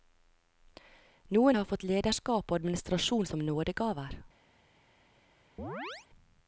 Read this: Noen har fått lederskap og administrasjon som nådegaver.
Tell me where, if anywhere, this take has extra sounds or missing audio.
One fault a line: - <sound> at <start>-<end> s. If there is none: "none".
- chirp at 5.6-6.1 s